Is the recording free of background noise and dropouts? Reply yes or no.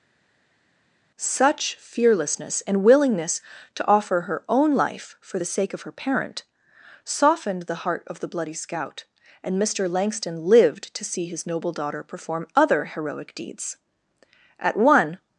yes